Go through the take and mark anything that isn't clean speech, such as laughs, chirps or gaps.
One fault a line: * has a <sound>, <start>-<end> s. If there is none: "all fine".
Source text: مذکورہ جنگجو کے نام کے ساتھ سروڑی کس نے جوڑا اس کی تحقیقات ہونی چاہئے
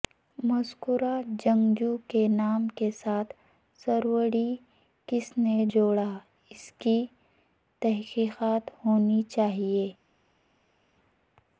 all fine